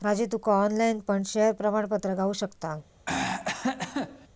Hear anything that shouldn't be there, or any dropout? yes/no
yes